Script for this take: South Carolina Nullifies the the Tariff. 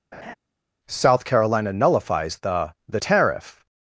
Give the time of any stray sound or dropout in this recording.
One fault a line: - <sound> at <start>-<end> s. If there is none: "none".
- laugh at 0.1-0.3 s